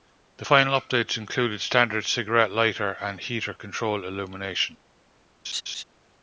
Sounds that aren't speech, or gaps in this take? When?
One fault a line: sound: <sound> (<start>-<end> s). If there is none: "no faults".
sound: laugh (5.4-5.8 s)